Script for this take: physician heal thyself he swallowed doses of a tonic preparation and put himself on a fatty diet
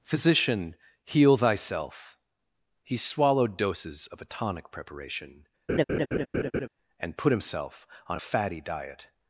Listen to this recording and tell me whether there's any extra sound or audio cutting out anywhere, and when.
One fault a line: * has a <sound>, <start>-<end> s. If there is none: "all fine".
* has a laugh, 5.7-6.7 s